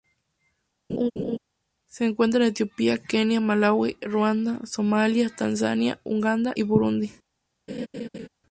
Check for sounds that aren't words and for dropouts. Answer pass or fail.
fail